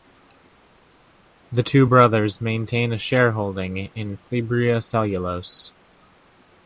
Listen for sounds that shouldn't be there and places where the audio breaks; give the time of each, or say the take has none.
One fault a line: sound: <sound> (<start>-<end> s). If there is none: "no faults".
no faults